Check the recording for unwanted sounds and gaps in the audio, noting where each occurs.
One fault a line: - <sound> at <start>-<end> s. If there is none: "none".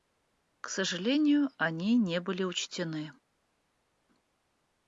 none